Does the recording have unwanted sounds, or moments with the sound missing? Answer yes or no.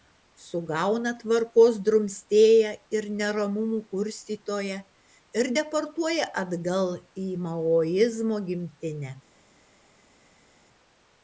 no